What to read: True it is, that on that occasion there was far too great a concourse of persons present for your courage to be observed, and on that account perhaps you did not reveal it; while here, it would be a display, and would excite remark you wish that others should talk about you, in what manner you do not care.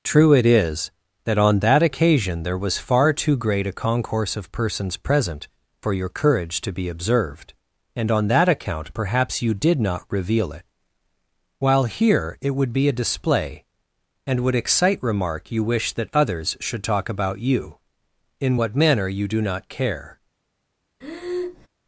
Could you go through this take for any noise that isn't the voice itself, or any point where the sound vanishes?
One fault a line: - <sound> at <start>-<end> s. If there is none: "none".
- breath at 21.0-21.7 s